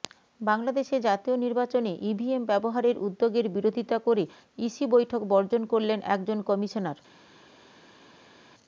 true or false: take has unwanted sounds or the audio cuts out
false